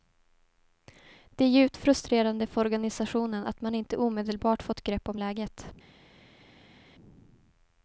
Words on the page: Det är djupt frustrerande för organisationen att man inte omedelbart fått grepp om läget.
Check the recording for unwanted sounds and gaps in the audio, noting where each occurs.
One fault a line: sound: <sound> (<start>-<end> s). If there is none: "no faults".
no faults